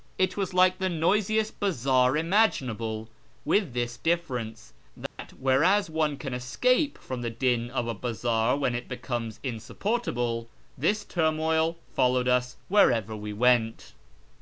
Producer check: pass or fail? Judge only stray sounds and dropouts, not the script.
fail